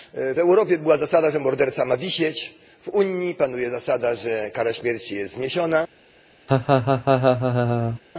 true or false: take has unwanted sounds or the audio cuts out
true